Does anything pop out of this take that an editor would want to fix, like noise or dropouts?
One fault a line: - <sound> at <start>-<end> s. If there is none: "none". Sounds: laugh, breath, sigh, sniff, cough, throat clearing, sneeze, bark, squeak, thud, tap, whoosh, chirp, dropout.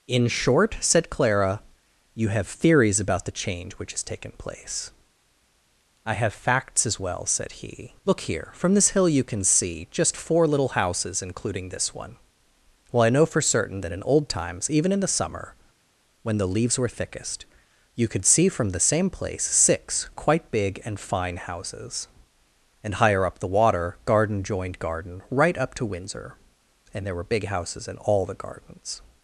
none